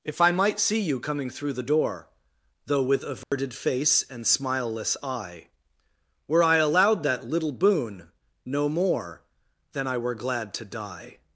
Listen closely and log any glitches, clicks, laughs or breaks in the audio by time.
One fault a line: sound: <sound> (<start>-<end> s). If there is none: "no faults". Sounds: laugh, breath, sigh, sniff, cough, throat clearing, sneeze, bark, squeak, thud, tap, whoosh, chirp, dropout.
sound: dropout (3.2-3.3 s)